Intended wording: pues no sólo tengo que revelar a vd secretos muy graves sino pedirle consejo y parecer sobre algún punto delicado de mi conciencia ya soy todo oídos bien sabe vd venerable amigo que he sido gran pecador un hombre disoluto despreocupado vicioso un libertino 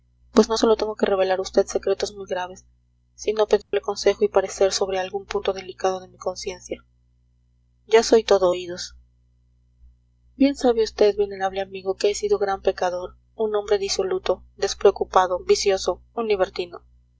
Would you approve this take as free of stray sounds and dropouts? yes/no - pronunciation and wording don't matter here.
no